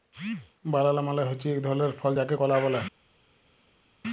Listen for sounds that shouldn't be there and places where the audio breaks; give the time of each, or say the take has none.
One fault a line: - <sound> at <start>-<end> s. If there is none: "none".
none